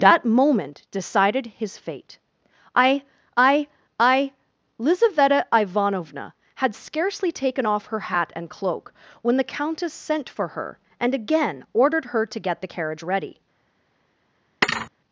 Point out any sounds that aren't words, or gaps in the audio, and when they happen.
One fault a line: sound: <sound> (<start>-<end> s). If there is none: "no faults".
sound: thud (14.6-14.9 s)